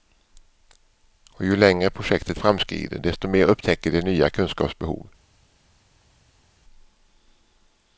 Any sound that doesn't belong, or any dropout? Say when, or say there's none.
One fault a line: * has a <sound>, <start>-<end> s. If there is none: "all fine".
all fine